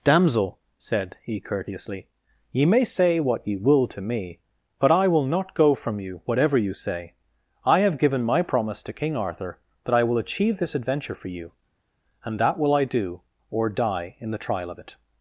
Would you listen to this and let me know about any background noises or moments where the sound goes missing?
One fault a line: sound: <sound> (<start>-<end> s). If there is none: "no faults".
no faults